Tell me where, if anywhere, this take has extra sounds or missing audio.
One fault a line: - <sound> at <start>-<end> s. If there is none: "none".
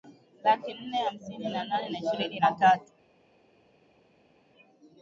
none